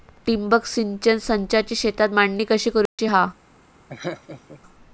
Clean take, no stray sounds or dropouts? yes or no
no